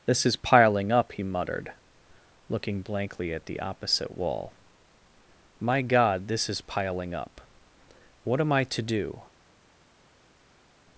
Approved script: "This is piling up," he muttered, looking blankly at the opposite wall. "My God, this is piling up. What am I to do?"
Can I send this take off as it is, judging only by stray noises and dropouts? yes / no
yes